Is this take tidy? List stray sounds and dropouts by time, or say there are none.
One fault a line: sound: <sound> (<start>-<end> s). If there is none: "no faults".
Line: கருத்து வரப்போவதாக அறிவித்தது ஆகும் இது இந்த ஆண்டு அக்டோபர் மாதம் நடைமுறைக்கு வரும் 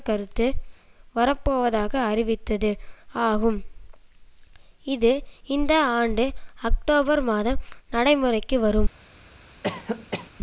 sound: cough (9.6-10.3 s)